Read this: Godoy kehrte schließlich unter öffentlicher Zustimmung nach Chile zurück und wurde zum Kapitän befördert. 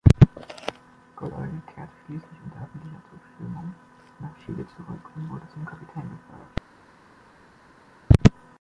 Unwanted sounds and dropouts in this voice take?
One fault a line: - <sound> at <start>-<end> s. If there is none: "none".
none